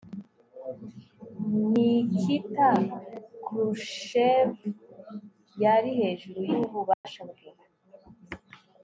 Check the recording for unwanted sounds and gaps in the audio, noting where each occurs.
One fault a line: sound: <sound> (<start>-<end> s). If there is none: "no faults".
sound: dropout (6.9-7.0 s)